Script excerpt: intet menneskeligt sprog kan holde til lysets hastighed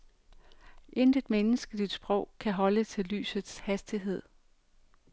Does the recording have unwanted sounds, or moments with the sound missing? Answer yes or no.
no